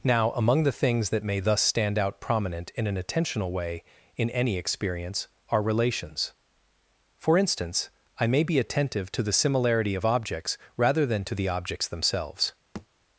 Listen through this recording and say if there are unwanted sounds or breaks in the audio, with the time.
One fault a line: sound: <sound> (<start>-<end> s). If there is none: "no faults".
sound: thud (12.7-12.9 s)